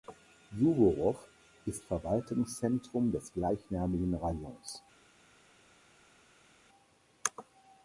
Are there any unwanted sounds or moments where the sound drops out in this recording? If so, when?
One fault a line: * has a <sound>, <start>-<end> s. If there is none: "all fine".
all fine